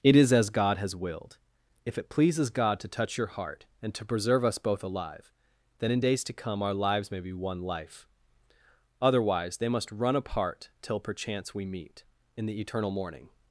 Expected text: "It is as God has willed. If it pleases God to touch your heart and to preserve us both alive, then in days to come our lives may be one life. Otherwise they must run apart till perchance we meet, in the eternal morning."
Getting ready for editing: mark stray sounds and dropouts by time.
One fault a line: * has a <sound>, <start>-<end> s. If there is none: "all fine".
all fine